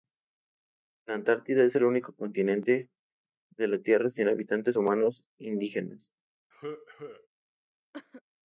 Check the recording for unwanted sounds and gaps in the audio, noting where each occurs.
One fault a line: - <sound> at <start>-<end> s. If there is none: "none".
- cough at 6.5-7.3 s
- cough at 7.9-8.2 s